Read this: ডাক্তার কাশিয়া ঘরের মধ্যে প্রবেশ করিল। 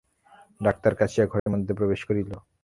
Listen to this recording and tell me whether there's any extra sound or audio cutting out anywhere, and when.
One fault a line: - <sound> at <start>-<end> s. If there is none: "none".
- dropout at 1.4-1.5 s